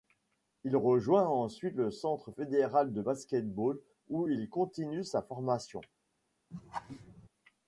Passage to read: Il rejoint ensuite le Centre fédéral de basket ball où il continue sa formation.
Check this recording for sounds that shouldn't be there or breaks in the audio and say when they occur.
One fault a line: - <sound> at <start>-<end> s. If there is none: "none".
- laugh at 6.5-7.3 s